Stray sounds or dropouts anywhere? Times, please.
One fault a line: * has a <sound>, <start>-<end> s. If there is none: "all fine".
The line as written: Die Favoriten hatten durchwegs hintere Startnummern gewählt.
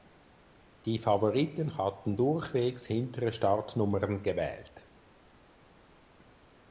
all fine